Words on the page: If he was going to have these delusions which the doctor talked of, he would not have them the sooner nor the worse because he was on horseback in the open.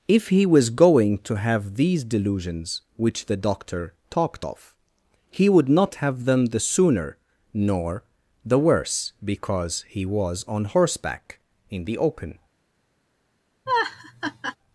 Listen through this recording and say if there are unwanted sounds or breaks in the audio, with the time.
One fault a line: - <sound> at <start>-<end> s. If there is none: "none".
- laugh at 13.7-14.6 s